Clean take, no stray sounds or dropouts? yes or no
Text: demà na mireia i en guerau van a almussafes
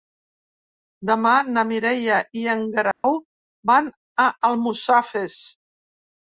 no